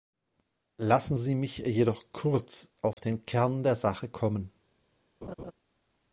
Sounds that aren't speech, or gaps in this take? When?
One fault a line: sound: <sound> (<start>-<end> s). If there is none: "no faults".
sound: dropout (2.9-3.0 s)
sound: laugh (5.2-5.5 s)